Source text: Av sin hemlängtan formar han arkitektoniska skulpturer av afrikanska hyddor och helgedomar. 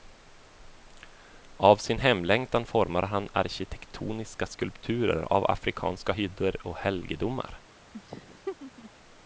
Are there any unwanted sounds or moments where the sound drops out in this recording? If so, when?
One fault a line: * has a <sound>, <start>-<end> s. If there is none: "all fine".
* has a laugh, 7.9-8.9 s